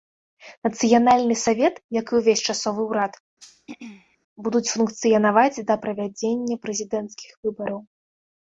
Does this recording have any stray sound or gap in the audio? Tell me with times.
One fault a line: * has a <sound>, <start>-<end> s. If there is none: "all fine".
* has a throat clearing, 3.4-4.2 s